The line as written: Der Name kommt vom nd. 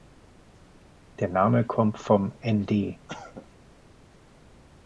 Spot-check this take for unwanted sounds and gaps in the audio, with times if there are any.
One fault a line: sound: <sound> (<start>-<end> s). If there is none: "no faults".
sound: cough (3.1-3.5 s)